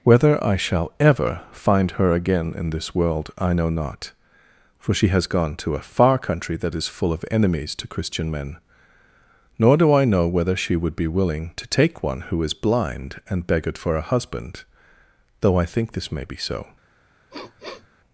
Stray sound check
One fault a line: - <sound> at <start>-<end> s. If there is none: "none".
- sniff at 17.3-17.9 s